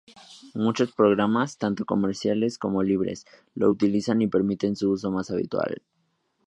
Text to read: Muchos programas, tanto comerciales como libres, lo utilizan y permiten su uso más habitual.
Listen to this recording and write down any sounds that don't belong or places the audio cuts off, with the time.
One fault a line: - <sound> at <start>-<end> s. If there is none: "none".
none